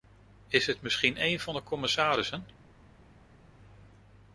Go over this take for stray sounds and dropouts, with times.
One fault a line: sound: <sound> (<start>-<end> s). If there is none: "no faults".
no faults